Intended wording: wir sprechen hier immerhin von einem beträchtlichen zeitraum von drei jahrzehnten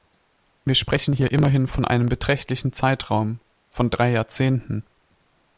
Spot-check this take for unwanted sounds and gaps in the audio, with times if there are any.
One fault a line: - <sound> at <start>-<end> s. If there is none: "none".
none